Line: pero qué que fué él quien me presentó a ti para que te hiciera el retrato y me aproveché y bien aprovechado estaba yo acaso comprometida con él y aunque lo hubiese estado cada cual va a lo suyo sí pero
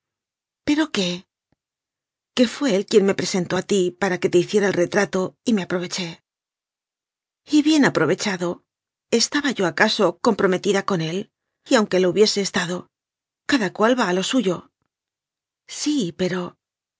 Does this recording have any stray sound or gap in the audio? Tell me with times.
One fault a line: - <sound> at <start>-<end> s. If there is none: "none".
none